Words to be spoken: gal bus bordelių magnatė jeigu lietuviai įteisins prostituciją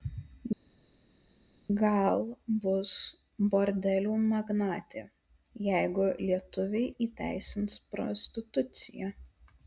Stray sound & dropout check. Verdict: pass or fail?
pass